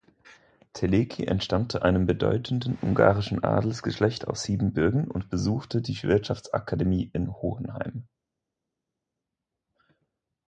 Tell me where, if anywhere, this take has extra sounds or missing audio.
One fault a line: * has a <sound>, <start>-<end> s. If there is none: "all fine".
all fine